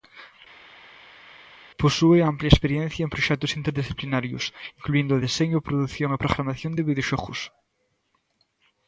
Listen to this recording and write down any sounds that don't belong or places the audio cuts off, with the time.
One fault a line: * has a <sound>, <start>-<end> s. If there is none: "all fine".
all fine